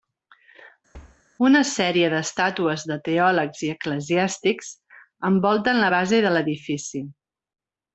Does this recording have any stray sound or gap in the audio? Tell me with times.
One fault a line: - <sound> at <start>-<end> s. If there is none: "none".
- thud at 0.9-1.2 s